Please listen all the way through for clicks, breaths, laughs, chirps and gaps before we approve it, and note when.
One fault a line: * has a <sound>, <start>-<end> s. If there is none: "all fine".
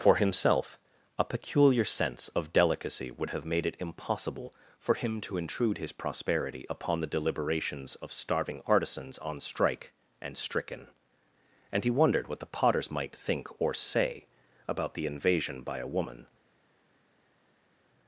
all fine